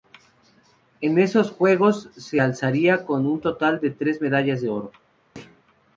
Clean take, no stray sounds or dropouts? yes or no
no